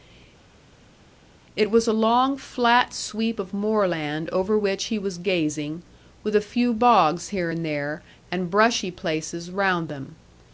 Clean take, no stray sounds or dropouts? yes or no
yes